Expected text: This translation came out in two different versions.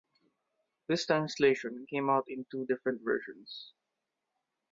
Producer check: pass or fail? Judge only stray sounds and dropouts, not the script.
pass